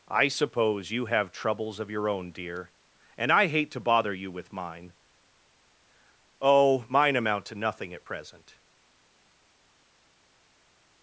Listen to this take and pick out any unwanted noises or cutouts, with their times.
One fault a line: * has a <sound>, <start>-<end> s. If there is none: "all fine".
all fine